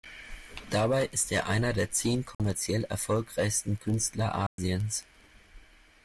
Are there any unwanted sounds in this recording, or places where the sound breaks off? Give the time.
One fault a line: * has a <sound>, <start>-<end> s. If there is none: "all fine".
* has a dropout, 2.3-2.4 s
* has a dropout, 4.5-4.6 s